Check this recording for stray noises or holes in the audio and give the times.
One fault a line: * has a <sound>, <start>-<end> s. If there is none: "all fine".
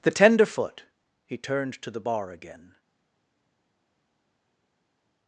all fine